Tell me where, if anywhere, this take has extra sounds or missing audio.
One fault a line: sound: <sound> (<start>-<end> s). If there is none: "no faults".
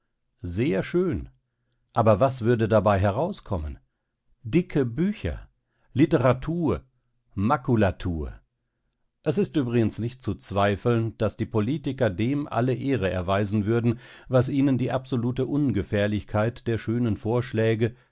no faults